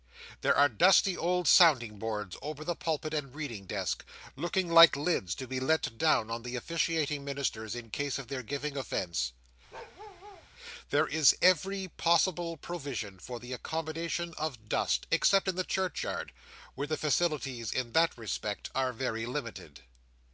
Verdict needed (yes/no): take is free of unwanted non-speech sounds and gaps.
no